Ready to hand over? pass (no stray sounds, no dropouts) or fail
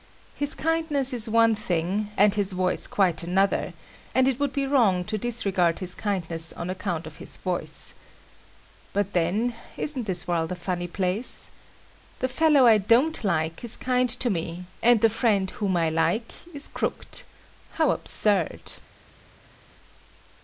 pass